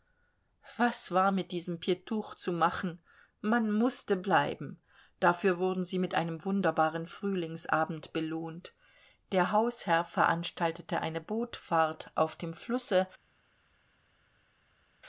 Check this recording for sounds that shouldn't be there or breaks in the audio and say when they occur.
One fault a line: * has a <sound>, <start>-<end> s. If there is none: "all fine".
all fine